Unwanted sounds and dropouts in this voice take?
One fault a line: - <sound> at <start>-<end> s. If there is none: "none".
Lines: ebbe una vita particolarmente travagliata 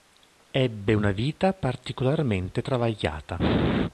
none